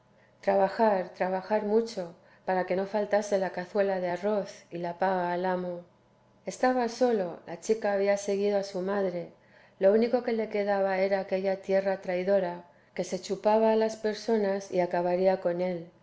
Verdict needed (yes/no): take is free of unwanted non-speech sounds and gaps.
yes